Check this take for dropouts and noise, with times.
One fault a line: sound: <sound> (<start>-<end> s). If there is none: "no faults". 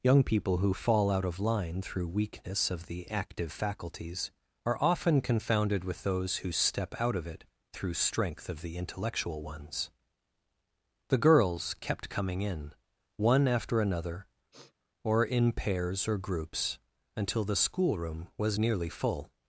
sound: sniff (14.5-14.7 s)